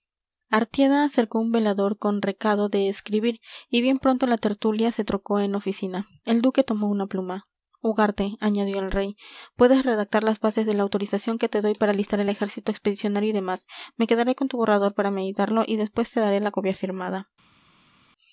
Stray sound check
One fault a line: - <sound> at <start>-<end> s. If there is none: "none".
none